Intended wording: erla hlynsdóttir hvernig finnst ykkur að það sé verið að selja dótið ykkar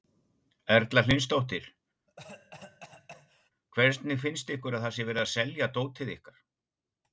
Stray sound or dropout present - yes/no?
yes